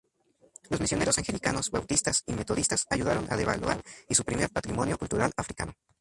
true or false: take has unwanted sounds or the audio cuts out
false